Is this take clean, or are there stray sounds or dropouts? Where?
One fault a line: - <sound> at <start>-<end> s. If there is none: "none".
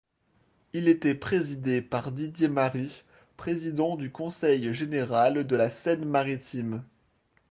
none